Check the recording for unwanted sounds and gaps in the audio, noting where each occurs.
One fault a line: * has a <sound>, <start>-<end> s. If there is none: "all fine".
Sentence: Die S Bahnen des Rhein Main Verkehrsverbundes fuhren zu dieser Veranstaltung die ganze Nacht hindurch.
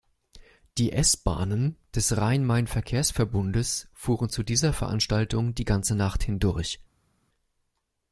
all fine